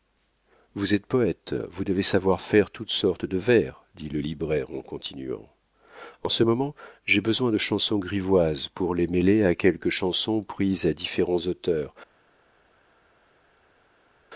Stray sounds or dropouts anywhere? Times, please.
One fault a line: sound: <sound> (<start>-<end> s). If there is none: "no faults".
no faults